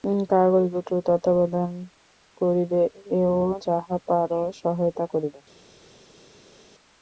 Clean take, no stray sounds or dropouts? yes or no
yes